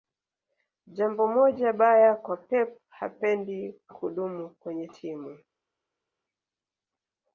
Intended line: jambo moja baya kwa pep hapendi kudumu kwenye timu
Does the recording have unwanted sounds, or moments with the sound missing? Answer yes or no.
no